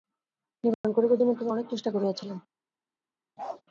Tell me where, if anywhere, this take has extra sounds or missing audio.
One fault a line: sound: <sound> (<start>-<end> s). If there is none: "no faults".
sound: dropout (0.7-0.8 s)
sound: bark (3.4-3.6 s)